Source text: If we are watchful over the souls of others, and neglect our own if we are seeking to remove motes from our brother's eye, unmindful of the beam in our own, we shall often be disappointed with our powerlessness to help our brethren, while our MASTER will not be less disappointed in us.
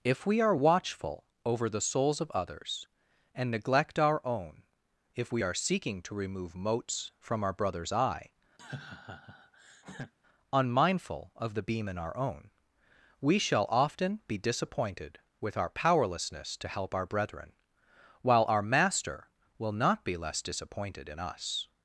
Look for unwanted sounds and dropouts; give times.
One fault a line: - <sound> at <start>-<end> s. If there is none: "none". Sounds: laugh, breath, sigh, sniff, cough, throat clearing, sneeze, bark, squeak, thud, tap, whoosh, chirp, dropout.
- laugh at 8.6-10.1 s